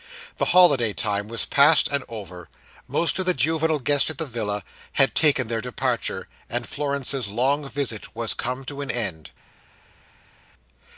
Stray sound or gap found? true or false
false